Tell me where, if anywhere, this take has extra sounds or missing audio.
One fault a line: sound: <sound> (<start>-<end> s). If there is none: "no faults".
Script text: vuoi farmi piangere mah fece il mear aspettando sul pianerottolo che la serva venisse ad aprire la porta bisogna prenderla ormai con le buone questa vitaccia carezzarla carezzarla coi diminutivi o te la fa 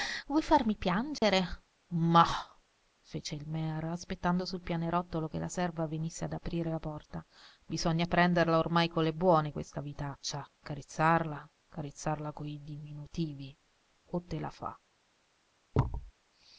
sound: dropout (1.2-1.2 s)
sound: thud (15.7-16.1 s)